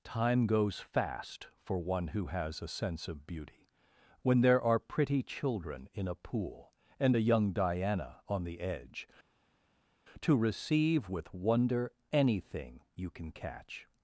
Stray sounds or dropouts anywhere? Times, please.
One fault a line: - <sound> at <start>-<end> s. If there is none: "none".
none